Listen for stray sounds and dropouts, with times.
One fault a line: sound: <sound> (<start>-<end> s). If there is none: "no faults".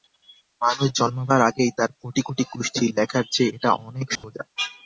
sound: dropout (4.2-4.2 s)